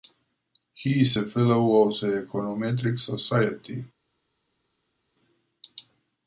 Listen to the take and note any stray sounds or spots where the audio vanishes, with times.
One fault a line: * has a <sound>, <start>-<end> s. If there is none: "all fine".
all fine